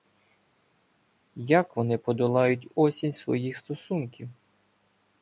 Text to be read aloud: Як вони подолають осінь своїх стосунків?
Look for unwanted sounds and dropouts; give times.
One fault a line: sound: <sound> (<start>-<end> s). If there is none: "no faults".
no faults